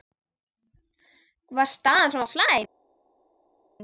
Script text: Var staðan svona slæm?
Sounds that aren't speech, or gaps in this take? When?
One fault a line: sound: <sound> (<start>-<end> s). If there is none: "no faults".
no faults